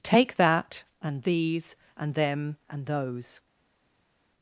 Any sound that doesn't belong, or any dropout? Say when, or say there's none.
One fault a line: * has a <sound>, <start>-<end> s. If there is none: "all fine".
all fine